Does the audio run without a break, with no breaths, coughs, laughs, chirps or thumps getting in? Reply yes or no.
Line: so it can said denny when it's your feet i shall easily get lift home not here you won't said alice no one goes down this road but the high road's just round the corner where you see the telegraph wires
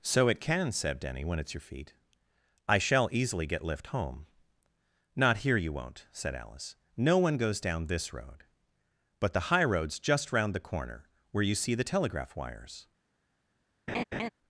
no